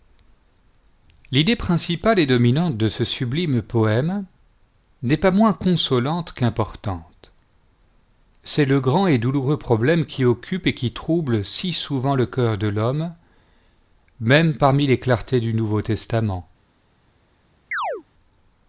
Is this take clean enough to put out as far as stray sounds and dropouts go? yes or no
no